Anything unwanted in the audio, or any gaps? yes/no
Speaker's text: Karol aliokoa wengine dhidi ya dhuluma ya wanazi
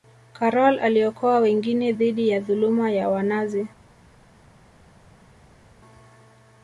no